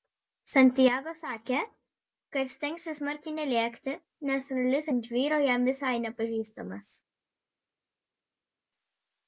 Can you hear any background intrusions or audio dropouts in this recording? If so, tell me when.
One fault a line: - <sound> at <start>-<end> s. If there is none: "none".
none